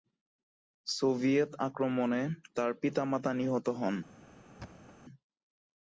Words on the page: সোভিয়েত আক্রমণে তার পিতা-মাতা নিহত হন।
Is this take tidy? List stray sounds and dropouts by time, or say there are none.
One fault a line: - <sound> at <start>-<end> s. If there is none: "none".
- thud at 4.6-5.0 s